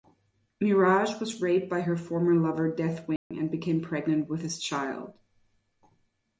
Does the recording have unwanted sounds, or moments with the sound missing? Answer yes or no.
yes